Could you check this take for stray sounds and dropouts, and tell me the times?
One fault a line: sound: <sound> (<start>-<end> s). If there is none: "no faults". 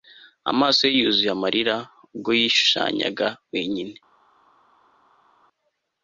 no faults